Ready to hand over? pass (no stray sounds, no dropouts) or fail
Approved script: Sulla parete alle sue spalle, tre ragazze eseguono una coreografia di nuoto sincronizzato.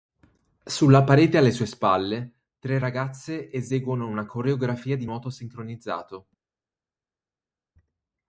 pass